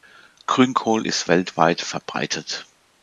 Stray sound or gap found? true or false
false